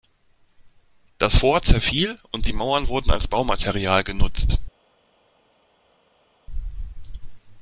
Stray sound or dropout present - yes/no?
no